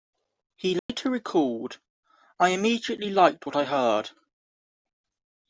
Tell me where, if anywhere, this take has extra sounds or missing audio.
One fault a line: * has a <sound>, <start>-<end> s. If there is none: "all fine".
* has a dropout, 0.8-0.9 s